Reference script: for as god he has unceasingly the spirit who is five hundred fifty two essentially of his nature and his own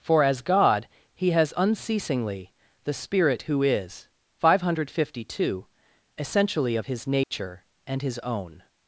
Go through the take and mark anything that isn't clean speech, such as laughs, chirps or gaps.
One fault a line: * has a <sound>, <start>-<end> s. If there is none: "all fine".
* has a dropout, 7.2-7.3 s